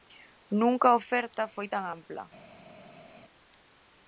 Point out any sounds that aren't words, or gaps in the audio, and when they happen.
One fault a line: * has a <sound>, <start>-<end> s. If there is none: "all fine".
all fine